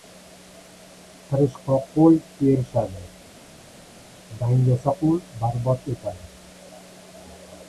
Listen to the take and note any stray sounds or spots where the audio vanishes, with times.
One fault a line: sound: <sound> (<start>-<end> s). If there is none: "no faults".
no faults